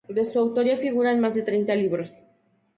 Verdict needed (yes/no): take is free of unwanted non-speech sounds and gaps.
yes